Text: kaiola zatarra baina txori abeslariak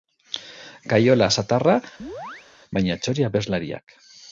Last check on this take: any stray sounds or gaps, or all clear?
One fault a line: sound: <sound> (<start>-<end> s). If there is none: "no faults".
sound: chirp (2.0-2.5 s)